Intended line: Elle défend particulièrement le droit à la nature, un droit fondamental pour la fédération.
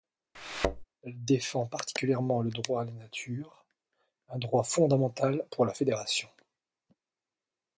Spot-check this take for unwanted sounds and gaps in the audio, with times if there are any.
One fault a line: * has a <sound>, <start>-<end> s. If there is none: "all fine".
* has a thud, 0.3-0.8 s